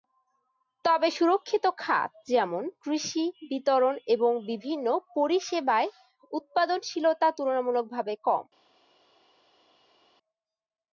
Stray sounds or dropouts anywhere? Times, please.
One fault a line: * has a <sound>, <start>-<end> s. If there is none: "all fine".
all fine